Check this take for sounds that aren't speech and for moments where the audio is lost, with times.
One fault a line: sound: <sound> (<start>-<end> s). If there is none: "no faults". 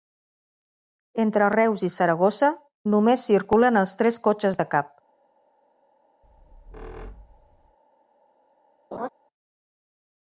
sound: squeak (6.2-7.8 s)
sound: laugh (8.9-9.1 s)